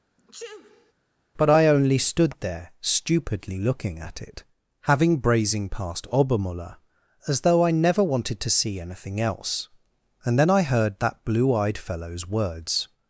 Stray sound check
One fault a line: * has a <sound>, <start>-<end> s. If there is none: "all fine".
* has a sneeze, 0.2-0.9 s